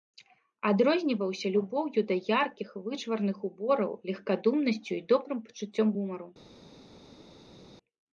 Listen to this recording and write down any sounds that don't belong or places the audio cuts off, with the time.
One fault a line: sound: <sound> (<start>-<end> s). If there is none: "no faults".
no faults